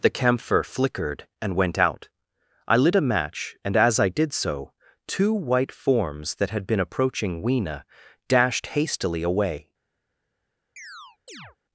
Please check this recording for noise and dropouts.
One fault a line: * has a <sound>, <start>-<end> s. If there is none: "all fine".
* has a chirp, 10.8-11.6 s